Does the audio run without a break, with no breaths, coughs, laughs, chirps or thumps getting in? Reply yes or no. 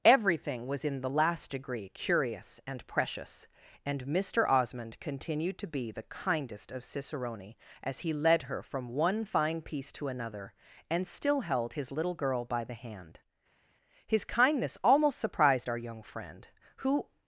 yes